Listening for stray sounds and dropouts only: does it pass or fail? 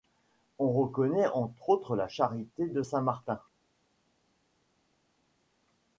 pass